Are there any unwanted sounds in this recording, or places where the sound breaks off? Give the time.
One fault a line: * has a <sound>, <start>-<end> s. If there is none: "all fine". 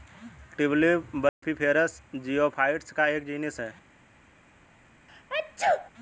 * has a dropout, 1.3-1.4 s
* has a sneeze, 5.1-5.9 s